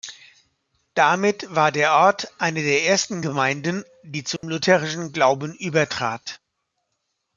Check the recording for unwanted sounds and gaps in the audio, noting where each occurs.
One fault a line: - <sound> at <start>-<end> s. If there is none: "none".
- dropout at 4.4-4.4 s